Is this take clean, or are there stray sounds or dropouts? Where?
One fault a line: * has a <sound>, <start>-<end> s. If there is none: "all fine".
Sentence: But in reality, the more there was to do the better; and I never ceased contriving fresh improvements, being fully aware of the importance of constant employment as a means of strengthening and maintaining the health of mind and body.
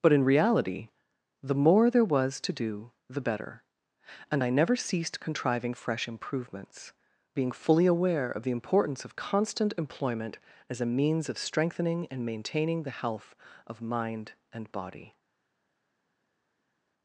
all fine